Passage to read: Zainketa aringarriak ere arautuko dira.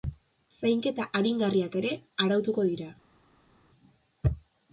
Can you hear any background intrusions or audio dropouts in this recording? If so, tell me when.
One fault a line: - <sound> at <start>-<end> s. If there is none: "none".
none